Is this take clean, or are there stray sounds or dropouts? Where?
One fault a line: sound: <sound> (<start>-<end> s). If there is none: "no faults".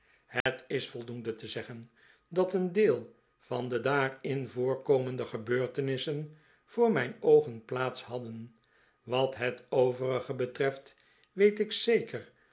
sound: dropout (0.4-0.5 s)